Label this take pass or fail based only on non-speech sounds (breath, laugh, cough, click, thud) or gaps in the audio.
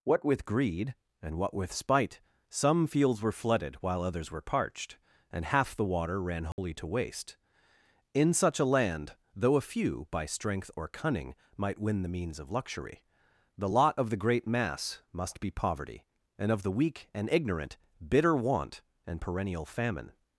fail